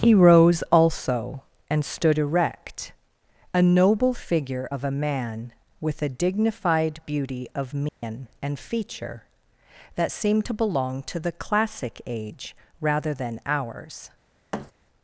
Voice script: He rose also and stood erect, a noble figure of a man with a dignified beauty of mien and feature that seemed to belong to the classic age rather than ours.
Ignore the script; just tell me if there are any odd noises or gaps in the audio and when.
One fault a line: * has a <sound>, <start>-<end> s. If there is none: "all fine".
* has a dropout, 7.9-8.0 s
* has a thud, 14.5-14.7 s